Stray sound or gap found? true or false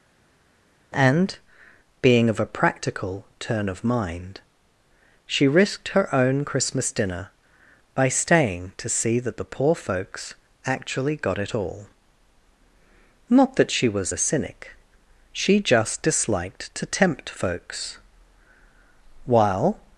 false